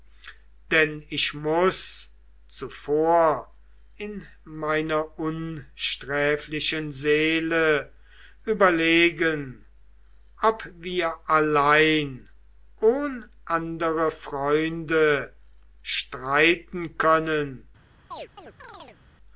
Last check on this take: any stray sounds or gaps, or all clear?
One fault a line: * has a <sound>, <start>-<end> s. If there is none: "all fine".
* has a chirp, 18.1-19.0 s